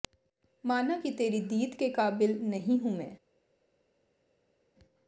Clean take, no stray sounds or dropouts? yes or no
yes